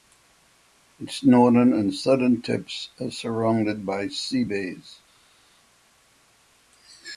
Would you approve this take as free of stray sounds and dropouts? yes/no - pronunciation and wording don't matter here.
yes